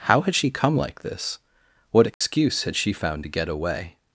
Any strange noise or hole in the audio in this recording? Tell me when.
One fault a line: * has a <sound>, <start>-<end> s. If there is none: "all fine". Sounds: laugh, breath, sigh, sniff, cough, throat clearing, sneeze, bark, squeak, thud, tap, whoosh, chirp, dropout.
* has a dropout, 2.1-2.2 s